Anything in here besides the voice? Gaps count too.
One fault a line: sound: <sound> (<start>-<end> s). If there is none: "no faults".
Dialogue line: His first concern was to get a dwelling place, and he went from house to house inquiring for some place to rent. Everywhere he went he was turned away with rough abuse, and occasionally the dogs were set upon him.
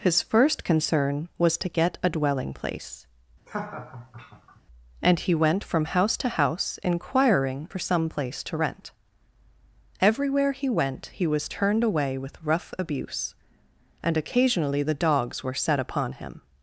sound: laugh (3.5-4.6 s)